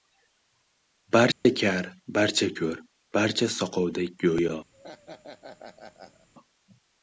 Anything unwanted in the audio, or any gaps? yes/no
yes